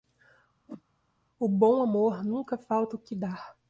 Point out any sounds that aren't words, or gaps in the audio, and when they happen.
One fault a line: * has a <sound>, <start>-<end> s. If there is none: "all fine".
* has a whoosh, 0.7-0.8 s